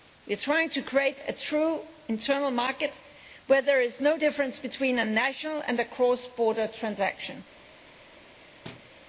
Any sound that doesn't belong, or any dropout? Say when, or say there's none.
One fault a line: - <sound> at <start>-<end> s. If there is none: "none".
- thud at 8.6-8.9 s